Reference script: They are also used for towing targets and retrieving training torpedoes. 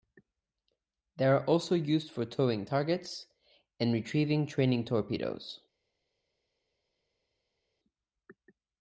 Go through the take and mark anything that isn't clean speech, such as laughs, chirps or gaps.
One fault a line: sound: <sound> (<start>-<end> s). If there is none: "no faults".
no faults